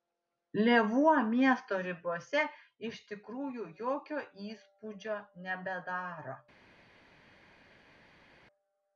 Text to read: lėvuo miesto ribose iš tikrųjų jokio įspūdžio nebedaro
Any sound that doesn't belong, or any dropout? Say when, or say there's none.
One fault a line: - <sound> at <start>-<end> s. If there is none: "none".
none